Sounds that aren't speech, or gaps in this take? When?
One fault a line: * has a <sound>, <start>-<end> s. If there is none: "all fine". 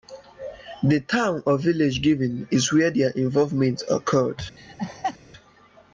* has a laugh, 4.6-5.2 s